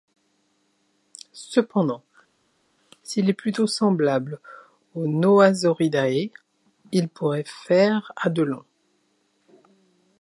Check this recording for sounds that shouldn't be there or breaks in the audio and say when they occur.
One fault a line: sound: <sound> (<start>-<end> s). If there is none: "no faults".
no faults